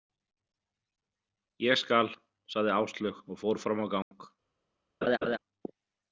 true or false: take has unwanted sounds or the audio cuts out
true